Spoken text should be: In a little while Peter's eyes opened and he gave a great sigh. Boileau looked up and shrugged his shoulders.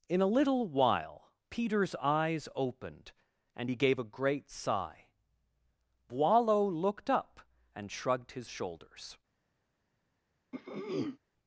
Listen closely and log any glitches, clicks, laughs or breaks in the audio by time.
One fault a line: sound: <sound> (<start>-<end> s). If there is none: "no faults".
sound: throat clearing (10.5-11.2 s)